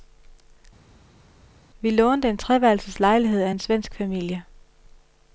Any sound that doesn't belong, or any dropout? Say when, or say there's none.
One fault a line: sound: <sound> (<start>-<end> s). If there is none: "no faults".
no faults